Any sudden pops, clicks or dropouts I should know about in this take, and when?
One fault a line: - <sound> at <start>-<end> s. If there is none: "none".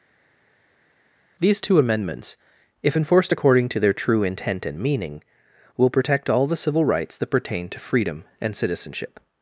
none